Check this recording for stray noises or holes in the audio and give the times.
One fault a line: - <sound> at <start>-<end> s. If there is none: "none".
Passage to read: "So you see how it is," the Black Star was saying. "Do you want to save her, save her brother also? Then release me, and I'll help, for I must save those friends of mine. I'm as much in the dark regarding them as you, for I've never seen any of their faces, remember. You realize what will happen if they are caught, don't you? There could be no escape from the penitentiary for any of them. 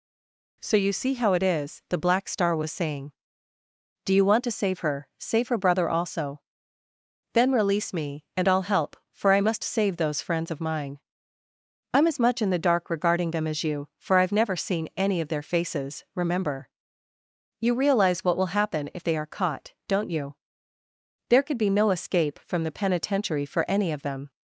none